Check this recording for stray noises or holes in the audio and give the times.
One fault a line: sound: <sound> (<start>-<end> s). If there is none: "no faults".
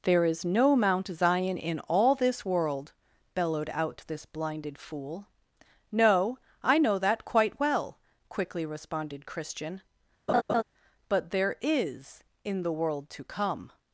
sound: laugh (10.3-10.6 s)